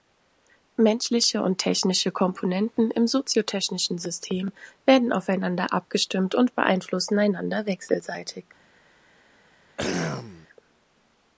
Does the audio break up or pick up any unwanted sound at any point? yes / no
yes